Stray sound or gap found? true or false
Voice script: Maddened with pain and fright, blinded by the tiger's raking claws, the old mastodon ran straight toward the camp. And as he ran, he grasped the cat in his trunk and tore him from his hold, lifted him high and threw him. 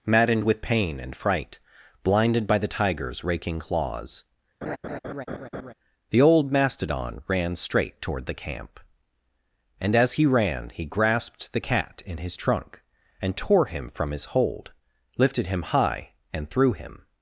true